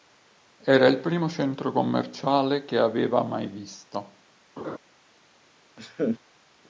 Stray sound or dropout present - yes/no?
yes